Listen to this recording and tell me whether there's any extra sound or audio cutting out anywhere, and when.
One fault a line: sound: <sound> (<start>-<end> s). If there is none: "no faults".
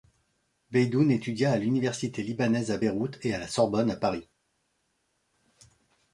no faults